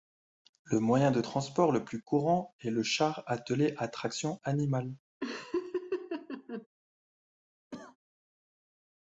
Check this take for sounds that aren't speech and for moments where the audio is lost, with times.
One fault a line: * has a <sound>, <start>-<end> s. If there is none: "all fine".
* has a laugh, 5.2-6.7 s
* has a cough, 7.7-8.0 s